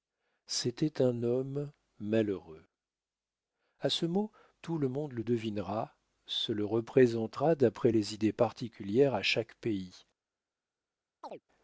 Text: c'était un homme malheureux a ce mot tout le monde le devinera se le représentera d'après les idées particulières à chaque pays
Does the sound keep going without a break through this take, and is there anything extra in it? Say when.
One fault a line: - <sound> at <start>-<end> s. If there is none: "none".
- chirp at 11.2-11.4 s